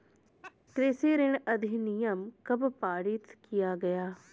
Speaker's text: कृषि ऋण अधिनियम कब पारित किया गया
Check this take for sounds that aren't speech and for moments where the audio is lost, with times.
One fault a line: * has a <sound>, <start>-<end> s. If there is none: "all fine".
* has a laugh, 0.4-0.6 s